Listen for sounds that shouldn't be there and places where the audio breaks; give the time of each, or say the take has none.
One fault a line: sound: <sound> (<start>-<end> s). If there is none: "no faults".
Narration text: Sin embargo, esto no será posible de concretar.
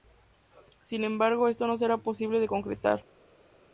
no faults